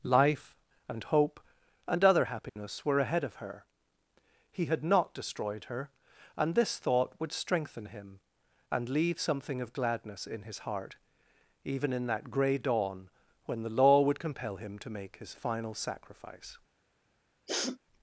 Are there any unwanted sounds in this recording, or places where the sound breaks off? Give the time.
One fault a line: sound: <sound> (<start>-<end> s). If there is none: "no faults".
sound: dropout (2.5-2.6 s)
sound: sniff (17.5-17.8 s)